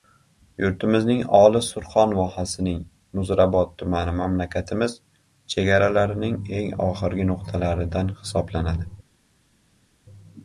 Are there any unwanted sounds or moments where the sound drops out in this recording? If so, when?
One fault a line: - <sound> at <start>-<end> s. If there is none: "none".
none